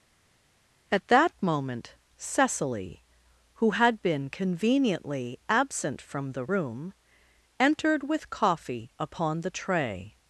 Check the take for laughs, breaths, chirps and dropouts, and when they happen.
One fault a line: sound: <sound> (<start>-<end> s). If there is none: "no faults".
no faults